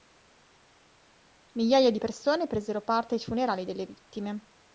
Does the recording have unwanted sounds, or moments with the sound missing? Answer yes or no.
no